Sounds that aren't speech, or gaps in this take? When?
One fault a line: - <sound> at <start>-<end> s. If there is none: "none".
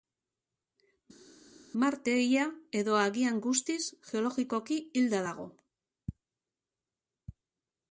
none